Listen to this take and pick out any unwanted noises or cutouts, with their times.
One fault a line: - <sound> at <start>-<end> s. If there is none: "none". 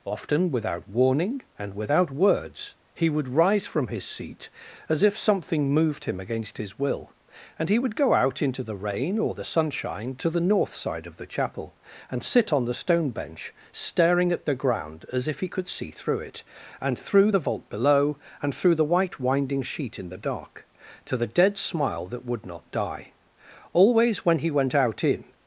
none